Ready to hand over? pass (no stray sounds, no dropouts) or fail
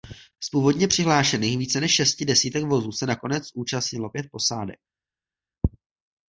pass